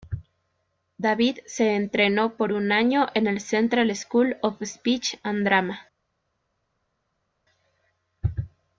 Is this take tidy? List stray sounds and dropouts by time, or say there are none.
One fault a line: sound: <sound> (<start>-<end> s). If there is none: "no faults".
no faults